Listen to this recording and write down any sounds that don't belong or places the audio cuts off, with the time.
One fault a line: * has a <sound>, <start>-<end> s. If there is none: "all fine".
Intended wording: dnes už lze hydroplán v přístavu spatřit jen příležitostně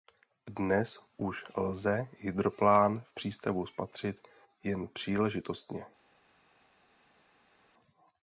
all fine